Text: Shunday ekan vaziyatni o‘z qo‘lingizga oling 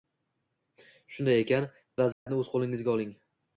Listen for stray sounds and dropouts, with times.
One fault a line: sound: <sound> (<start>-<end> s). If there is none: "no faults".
sound: dropout (2.1-2.3 s)